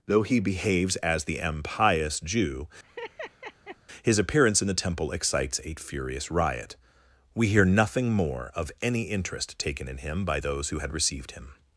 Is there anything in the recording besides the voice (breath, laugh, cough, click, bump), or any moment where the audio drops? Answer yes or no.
yes